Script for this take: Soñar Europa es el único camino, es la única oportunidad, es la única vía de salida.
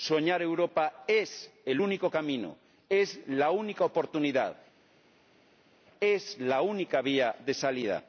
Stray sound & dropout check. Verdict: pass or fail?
pass